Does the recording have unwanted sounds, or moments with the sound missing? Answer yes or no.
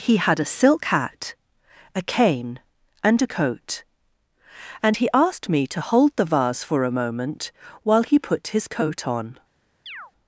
yes